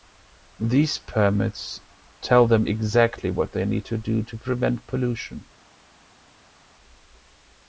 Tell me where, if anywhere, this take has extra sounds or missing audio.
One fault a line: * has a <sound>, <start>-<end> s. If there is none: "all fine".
all fine